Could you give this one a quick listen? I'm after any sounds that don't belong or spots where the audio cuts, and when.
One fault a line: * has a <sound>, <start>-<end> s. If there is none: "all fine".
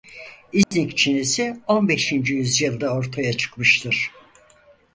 * has a dropout, 0.6-0.7 s